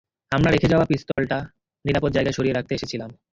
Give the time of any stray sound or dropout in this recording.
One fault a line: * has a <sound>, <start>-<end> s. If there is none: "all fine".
* has a dropout, 1.1-1.2 s